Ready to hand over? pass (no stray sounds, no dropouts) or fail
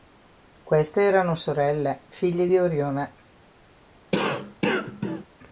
fail